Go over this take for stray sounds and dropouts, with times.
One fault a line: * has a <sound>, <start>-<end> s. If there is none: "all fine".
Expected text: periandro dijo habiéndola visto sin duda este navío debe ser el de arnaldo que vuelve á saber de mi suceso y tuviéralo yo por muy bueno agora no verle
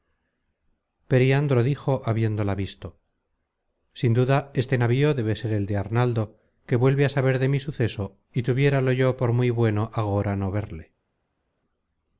all fine